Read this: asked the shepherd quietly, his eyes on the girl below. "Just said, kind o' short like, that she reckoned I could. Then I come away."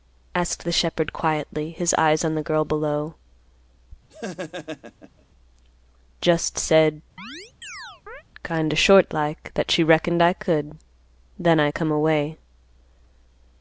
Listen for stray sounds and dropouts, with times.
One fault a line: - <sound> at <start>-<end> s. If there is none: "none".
- laugh at 4.1-5.2 s
- chirp at 7.2-8.2 s